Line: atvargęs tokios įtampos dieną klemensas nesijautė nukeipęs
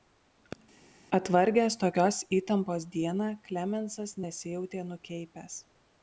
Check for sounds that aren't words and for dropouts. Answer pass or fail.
pass